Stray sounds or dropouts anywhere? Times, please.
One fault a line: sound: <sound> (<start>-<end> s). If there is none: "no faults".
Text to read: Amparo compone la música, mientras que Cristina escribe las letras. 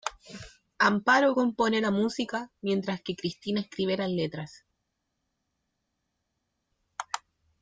no faults